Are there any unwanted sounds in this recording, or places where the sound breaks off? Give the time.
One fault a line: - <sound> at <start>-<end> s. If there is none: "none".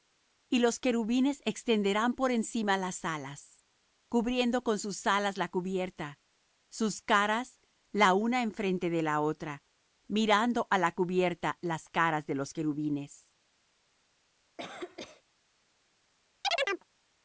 - cough at 14.6-15.2 s
- chirp at 16.4-16.8 s